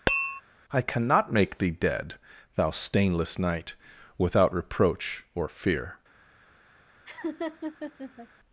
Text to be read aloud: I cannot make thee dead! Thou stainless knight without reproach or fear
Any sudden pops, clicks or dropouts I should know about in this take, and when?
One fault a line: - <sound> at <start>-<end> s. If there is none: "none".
- tap at 0.1-0.4 s
- laugh at 7.1-8.3 s